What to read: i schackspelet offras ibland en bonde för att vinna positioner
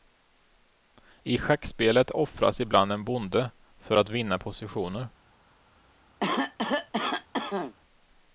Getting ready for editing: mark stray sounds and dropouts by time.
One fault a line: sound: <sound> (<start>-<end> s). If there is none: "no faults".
sound: cough (6.2-7.8 s)